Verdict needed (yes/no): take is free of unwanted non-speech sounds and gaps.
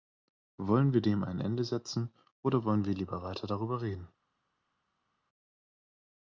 yes